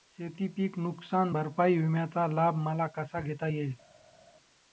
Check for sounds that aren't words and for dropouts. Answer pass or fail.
pass